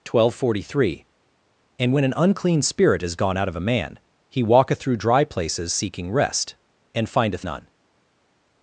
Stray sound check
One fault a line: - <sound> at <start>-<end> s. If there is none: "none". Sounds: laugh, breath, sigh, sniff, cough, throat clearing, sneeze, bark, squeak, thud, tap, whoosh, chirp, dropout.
none